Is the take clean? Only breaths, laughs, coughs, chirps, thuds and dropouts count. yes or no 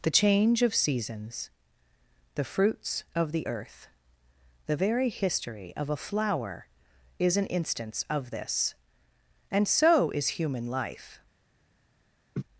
no